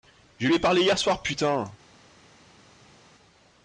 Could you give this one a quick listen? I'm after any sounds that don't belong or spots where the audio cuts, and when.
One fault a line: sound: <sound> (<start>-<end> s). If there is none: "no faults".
no faults